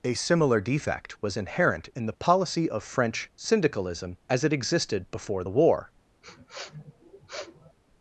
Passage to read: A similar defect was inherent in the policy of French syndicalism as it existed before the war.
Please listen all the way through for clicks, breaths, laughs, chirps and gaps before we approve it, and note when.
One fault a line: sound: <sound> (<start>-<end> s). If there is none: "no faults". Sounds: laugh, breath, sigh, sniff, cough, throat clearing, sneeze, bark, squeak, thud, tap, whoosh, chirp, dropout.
sound: sniff (6.2-7.8 s)